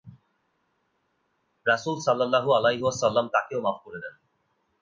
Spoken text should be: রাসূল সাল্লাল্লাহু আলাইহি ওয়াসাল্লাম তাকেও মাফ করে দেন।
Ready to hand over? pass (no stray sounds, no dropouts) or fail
pass